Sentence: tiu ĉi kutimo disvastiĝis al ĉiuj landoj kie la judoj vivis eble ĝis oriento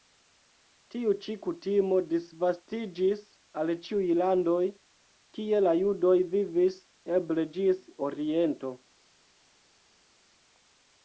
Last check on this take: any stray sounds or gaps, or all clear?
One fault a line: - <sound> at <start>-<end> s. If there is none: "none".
none